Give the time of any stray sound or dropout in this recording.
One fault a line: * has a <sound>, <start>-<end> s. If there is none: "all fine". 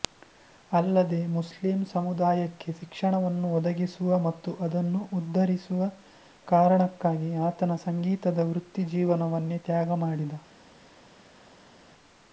all fine